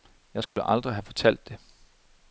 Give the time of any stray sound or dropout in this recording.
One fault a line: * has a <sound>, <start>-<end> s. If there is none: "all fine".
* has a dropout, 0.5-0.6 s